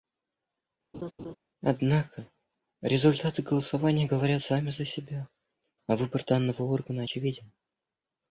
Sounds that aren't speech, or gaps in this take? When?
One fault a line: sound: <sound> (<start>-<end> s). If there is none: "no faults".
sound: laugh (0.9-1.4 s)